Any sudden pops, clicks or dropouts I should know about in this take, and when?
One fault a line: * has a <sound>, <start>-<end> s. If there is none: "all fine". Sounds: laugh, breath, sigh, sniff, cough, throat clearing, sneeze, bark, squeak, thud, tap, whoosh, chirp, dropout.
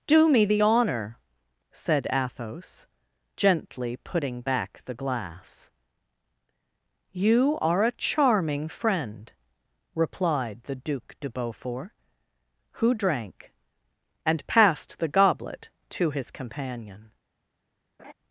* has a laugh, 18.0-18.1 s